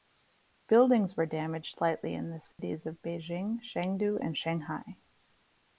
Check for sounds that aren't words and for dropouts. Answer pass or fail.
fail